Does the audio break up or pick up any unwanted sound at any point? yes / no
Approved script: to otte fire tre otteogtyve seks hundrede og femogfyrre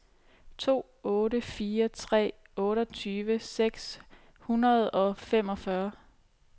no